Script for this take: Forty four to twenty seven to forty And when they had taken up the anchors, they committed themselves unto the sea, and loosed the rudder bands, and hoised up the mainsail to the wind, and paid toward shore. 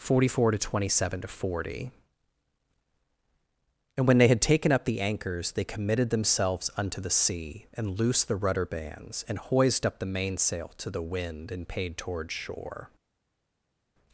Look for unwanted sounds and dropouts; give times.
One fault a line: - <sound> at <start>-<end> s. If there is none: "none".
none